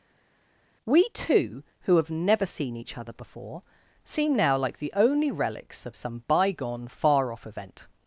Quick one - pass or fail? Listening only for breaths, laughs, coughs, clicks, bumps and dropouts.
pass